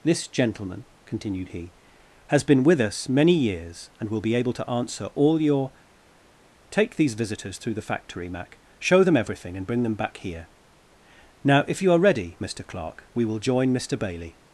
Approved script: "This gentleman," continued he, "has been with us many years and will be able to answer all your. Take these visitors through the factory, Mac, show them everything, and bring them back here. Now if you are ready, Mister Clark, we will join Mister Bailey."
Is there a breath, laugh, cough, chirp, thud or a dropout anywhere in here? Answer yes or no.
no